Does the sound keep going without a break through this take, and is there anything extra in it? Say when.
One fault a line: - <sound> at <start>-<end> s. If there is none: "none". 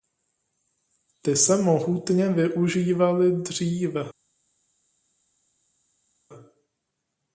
none